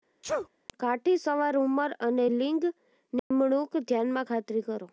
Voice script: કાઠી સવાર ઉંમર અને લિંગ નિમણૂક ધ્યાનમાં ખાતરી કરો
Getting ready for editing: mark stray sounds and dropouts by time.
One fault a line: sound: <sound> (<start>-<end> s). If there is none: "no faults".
sound: sneeze (0.2-0.5 s)
sound: dropout (3.2-3.3 s)